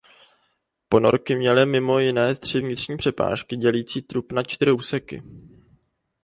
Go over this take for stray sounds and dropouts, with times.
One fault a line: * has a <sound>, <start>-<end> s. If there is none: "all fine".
all fine